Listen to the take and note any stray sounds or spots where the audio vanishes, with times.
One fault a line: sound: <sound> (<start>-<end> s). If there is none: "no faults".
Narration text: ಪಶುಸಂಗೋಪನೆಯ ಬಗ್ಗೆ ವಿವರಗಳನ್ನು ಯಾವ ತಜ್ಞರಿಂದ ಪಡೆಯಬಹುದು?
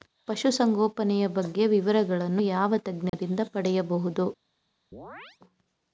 sound: dropout (3.1-3.1 s)
sound: chirp (4.9-5.4 s)